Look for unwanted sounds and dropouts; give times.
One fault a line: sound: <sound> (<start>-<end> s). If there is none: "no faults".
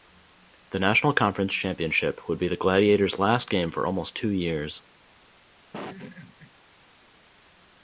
sound: laugh (5.7-6.5 s)